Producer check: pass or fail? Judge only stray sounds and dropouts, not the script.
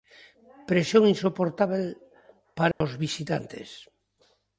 fail